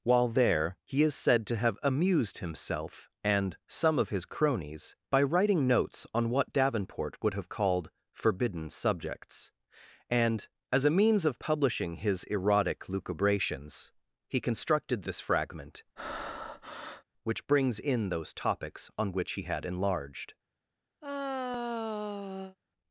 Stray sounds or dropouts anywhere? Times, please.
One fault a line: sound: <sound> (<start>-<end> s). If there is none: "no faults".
sound: breath (16.0-17.0 s)
sound: sigh (21.0-22.6 s)